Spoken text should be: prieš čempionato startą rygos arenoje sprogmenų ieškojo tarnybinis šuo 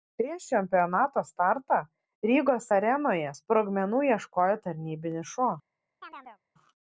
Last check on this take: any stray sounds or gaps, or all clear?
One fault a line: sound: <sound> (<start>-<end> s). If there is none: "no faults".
sound: chirp (6.0-6.4 s)